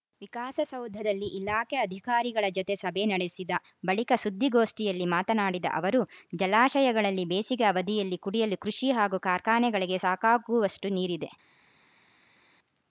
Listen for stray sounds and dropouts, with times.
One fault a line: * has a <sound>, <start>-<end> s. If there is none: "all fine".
all fine